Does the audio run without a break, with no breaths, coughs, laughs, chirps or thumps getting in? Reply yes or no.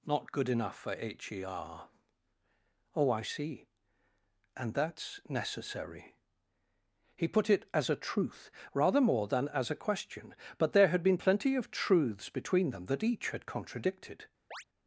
no